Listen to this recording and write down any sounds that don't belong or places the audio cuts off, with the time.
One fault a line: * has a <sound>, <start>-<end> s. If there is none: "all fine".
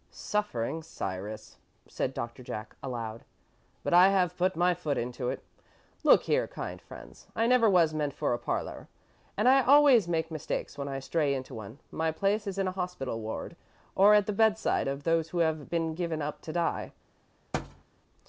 * has a thud, 17.5-17.8 s